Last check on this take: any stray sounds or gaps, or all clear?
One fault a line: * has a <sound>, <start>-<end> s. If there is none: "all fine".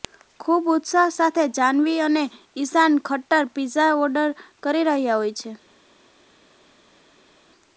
all fine